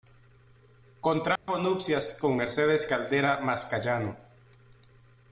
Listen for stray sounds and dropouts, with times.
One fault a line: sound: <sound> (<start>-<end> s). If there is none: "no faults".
sound: dropout (1.4-1.5 s)